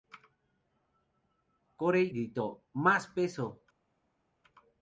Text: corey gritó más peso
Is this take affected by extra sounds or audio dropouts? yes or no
no